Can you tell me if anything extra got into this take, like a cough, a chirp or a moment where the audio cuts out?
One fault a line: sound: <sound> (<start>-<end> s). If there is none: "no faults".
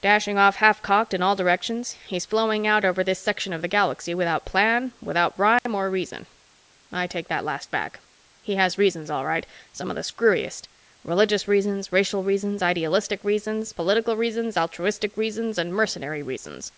sound: dropout (5.6-5.7 s)